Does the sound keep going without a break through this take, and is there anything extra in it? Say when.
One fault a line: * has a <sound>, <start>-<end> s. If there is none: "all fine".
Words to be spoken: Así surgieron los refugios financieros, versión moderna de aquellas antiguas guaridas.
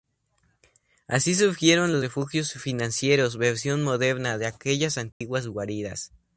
* has a dropout, 5.1-5.2 s